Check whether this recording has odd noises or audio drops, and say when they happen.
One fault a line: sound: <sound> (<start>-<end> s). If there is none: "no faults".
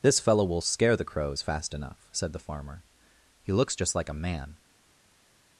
no faults